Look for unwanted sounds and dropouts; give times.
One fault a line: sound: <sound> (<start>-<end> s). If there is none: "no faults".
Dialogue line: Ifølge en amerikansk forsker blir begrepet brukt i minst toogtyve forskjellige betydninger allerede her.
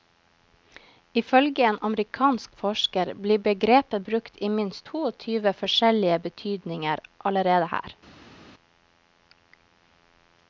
no faults